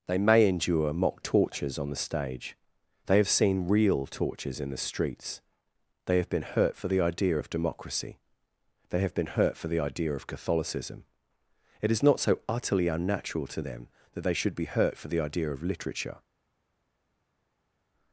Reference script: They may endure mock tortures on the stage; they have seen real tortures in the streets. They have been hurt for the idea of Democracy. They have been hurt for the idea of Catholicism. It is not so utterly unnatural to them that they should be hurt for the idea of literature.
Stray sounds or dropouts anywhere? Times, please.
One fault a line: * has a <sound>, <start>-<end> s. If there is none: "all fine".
all fine